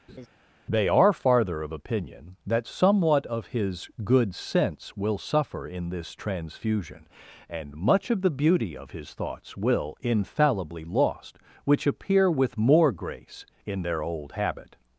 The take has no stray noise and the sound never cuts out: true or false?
false